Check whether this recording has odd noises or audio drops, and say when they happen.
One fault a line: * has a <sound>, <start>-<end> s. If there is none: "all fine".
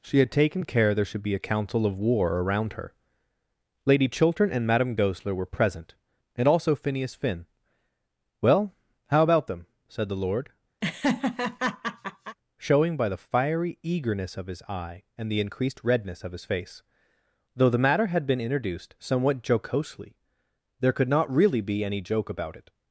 * has a laugh, 10.8-12.4 s